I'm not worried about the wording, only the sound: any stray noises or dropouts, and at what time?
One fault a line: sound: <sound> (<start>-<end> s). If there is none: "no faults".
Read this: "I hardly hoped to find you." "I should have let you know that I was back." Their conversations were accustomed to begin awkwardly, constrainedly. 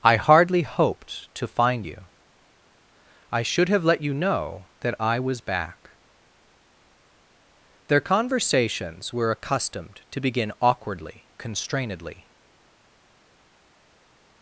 no faults